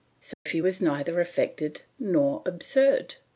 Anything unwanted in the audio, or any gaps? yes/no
yes